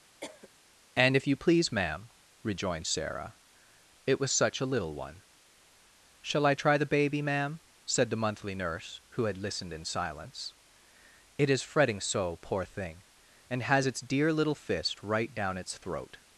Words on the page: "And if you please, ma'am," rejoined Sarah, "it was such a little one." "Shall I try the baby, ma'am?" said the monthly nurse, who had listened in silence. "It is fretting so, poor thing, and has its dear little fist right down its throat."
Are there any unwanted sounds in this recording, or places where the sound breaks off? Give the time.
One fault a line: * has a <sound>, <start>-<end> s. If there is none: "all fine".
* has a cough, 0.2-0.5 s